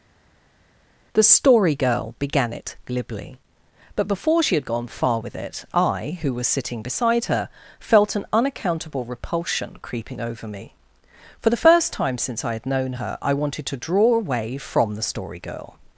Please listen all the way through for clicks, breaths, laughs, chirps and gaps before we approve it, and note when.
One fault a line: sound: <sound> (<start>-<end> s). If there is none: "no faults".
no faults